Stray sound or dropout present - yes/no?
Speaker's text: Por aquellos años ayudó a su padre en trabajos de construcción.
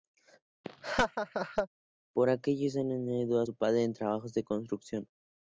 yes